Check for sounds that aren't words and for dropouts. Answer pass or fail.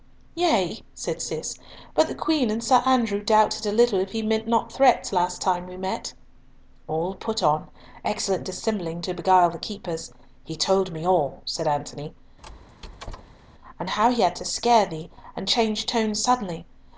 fail